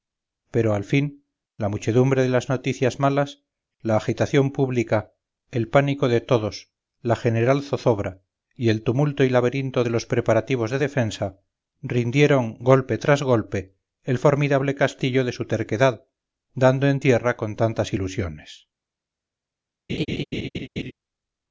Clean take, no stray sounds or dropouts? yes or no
no